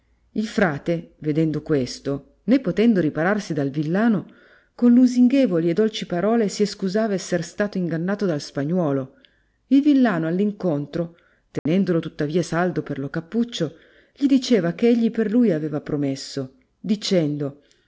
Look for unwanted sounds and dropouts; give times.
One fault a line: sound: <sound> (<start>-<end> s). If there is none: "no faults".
sound: dropout (11.6-11.7 s)